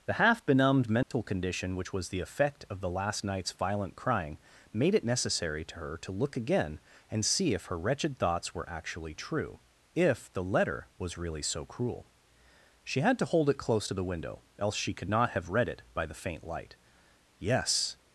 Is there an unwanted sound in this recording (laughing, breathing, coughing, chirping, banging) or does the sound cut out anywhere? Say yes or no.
yes